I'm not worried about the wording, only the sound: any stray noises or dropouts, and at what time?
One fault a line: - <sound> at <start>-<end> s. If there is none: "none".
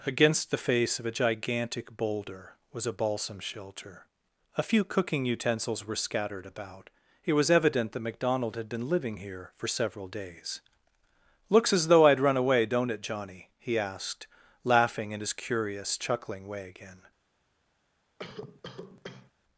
- cough at 18.2-19.3 s